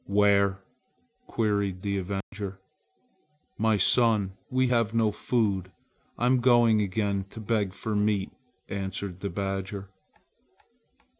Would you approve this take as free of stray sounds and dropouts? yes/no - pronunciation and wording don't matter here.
no